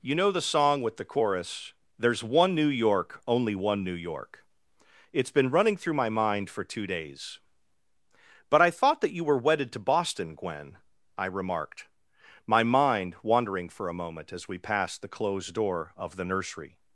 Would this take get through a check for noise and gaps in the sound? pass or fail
pass